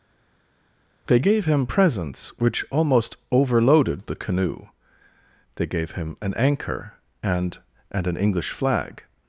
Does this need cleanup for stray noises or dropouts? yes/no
no